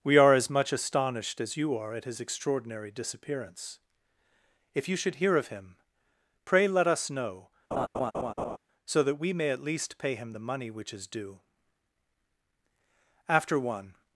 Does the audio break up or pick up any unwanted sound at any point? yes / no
yes